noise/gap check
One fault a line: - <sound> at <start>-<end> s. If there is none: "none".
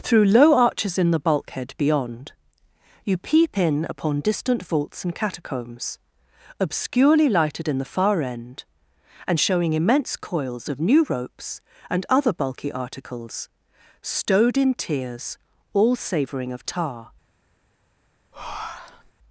- breath at 18.3-19.1 s